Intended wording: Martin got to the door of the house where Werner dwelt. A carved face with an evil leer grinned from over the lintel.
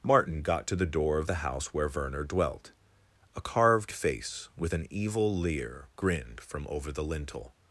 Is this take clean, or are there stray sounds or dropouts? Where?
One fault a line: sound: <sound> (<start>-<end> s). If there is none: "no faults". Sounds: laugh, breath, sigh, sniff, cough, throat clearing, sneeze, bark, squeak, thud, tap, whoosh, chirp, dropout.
no faults